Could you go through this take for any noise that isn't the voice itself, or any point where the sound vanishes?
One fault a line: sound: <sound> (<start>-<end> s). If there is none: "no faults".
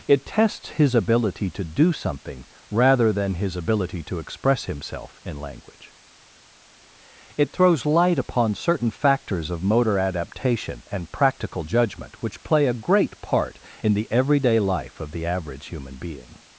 no faults